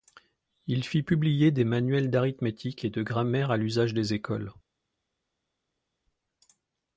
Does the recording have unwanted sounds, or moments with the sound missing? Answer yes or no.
no